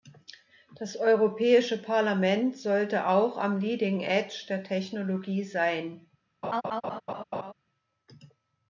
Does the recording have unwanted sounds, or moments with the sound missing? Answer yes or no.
yes